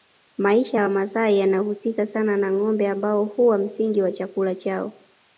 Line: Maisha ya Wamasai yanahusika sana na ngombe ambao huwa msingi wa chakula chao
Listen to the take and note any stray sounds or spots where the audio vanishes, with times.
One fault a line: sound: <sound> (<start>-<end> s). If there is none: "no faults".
no faults